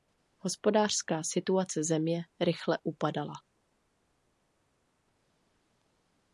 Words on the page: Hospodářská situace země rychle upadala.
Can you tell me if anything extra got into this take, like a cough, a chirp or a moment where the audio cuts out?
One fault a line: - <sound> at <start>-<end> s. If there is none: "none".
none